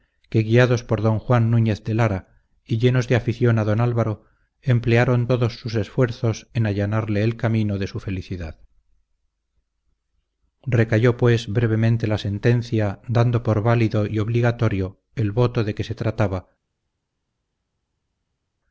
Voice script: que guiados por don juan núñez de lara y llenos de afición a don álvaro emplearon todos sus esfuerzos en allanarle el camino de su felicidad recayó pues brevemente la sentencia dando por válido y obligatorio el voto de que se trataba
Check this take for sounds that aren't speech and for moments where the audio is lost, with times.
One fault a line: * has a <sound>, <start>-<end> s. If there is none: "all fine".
all fine